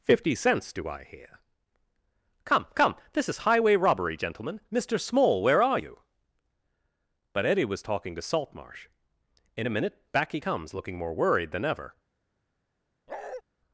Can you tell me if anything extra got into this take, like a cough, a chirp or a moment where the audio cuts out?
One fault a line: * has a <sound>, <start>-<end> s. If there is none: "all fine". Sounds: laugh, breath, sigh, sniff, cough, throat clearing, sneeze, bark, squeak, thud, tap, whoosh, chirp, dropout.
* has a bark, 13.1-13.4 s